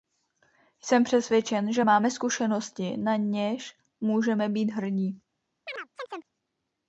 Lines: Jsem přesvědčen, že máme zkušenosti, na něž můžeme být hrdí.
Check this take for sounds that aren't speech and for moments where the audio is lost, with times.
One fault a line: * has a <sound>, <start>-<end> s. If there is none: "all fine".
* has a chirp, 5.7-6.3 s